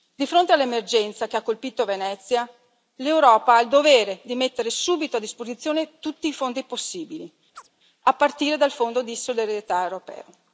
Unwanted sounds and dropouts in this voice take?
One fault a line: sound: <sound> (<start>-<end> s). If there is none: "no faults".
sound: chirp (7.5-7.7 s)